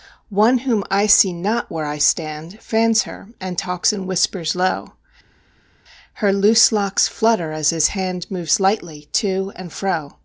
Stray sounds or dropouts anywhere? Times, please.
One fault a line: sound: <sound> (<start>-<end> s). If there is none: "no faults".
no faults